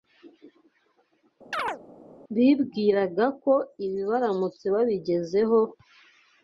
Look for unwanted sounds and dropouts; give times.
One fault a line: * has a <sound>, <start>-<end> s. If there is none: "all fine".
* has a chirp, 1.5-1.8 s